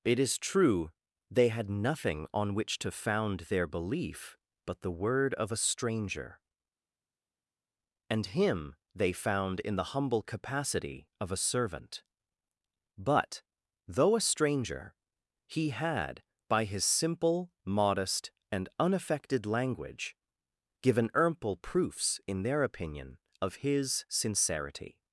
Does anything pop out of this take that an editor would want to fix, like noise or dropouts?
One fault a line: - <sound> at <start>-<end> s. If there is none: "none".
none